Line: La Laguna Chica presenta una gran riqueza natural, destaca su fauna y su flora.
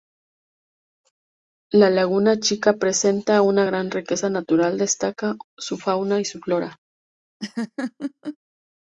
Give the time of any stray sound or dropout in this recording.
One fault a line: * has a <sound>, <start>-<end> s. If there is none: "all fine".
* has a laugh, 7.4-8.4 s